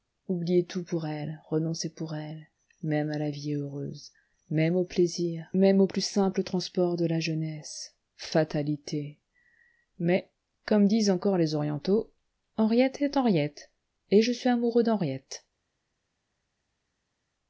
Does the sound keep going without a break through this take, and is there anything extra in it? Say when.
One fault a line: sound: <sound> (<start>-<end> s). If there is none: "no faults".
no faults